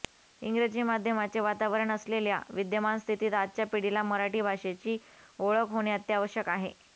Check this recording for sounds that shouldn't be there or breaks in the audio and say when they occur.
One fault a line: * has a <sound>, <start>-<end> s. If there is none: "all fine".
all fine